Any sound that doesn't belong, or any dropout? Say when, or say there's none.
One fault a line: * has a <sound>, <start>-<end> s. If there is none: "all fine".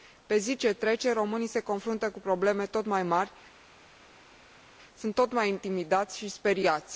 all fine